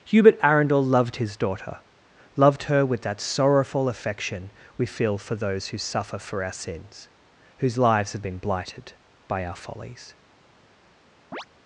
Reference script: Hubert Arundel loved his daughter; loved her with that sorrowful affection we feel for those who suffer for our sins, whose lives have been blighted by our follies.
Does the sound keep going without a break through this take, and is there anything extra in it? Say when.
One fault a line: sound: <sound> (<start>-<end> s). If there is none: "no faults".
sound: chirp (11.3-11.5 s)